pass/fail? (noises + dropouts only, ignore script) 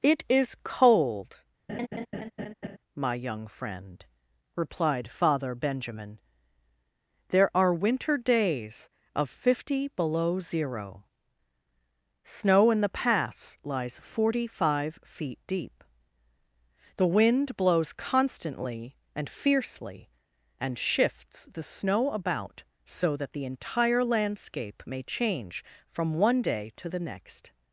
fail